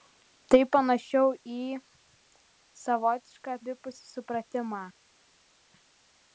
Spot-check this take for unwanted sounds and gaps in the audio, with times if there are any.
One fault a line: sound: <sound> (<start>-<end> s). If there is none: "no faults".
no faults